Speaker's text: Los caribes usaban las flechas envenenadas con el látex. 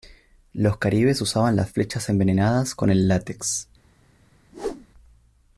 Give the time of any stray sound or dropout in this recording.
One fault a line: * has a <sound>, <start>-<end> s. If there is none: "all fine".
* has a whoosh, 4.5-4.9 s